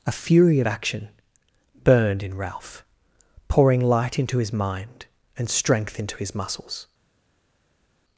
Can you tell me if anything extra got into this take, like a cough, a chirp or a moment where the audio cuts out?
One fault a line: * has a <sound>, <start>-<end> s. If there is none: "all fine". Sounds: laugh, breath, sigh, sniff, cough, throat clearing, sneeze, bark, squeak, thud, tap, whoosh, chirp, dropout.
all fine